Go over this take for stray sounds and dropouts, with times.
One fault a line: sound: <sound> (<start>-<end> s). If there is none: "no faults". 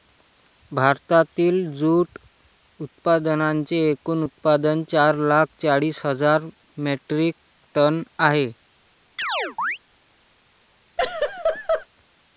sound: chirp (9.2-9.8 s)
sound: laugh (11.0-11.9 s)